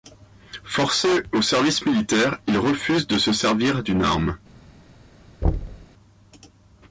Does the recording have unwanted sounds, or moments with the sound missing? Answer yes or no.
yes